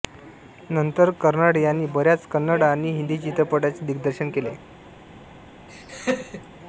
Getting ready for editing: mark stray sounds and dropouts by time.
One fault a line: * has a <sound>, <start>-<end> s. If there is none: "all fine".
* has a laugh, 5.7-6.5 s